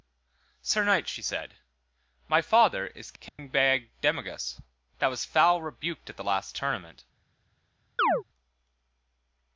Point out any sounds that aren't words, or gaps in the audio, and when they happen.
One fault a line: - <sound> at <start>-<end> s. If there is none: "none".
- dropout at 3.3-3.4 s
- chirp at 8.0-8.2 s